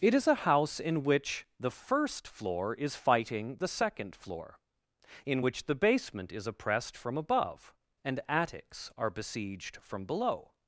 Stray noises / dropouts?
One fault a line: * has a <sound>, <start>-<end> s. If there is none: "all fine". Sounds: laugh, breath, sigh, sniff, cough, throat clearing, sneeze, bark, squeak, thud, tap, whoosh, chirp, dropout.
all fine